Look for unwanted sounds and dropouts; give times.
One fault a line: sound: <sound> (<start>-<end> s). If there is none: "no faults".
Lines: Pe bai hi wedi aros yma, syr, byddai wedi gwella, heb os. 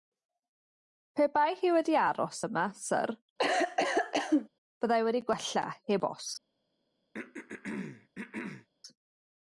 sound: cough (3.4-4.5 s)
sound: throat clearing (7.1-8.7 s)